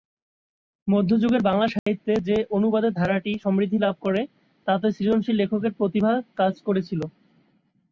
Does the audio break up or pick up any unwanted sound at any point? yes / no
yes